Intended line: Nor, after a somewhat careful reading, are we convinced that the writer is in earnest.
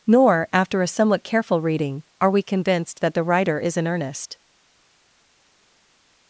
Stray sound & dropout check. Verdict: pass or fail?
pass